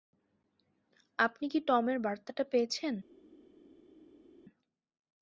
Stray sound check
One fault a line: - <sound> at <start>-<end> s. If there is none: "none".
none